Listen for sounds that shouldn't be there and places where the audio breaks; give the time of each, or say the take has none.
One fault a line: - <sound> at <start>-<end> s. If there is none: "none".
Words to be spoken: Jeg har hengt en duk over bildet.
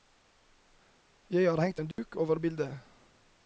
- dropout at 1.9-2.0 s